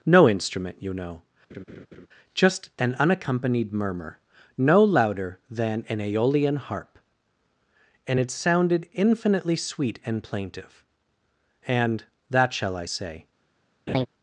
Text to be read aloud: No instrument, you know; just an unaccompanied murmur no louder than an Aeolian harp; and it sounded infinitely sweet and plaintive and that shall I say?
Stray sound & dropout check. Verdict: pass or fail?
fail